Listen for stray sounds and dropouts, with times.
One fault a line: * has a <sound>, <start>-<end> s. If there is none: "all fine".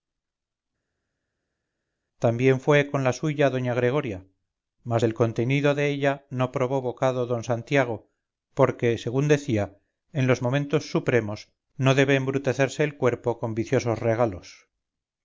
all fine